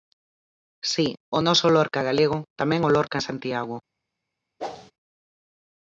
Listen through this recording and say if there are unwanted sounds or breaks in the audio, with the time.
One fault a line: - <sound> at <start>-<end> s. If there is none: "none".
- whoosh at 4.6-4.9 s